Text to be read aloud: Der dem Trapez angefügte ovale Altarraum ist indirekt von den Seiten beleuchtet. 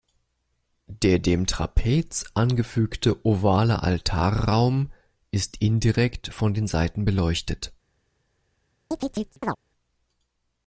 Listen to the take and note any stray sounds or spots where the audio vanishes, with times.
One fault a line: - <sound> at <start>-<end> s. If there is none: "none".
- chirp at 8.9-9.6 s